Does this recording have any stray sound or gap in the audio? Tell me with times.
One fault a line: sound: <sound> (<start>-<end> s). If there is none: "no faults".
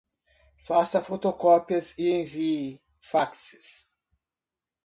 no faults